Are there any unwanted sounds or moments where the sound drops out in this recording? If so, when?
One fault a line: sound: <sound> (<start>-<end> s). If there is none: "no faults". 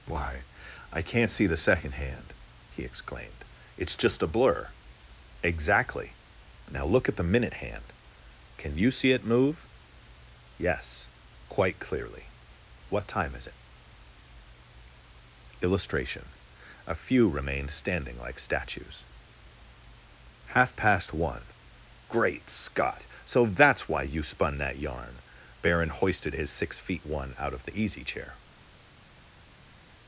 no faults